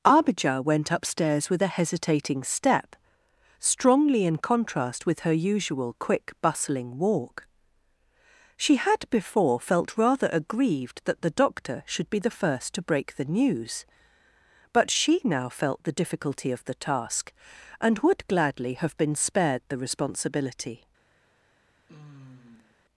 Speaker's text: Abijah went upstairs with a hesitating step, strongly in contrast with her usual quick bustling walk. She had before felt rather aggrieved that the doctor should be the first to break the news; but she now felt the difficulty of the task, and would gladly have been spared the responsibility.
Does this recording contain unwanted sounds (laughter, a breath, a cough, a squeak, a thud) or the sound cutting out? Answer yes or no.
yes